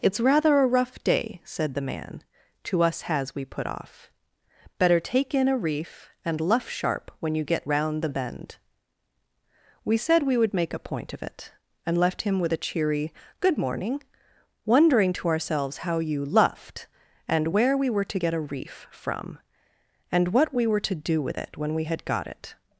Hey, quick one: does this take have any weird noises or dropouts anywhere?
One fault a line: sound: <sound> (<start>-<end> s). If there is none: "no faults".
no faults